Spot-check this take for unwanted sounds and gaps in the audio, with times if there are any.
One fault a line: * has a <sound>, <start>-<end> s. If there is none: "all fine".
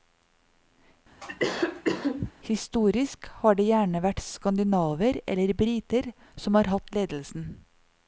* has a cough, 1.2-2.3 s